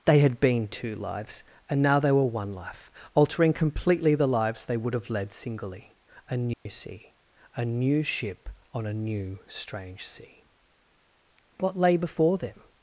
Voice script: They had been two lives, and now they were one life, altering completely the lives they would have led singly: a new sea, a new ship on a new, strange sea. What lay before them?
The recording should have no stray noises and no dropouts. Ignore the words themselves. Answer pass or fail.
fail